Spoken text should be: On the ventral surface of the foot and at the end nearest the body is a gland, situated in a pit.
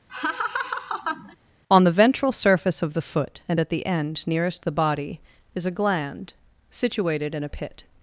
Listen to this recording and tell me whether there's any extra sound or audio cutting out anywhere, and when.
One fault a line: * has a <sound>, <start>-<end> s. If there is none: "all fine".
* has a laugh, 0.1-1.4 s